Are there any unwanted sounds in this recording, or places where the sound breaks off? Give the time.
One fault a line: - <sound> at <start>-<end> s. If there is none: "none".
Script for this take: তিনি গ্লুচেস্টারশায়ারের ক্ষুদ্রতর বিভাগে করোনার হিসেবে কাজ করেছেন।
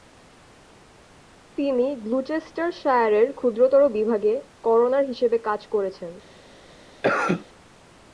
- cough at 7.0-7.4 s